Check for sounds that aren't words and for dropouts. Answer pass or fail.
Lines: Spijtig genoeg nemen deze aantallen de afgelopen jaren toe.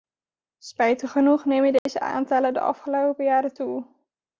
fail